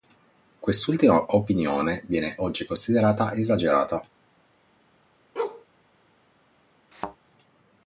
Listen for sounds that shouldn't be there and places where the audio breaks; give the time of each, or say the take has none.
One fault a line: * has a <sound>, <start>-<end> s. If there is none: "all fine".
* has a bark, 5.4-5.7 s
* has a thud, 6.9-7.2 s